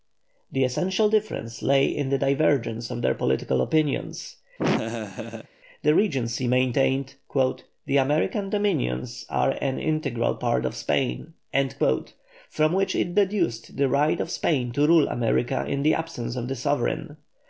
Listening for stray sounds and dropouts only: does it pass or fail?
fail